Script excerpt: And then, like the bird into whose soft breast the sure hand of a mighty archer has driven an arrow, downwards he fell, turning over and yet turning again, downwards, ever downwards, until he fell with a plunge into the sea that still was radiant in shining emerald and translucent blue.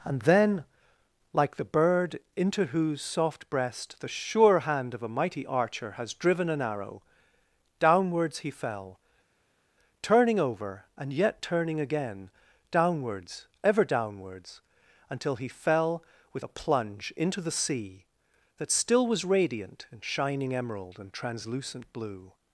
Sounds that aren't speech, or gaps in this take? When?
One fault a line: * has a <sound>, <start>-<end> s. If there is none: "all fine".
all fine